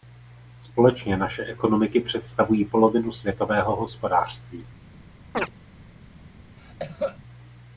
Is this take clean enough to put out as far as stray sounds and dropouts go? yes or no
no